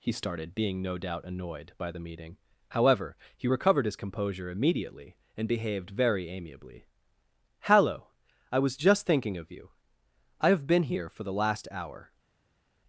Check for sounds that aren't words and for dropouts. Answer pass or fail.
pass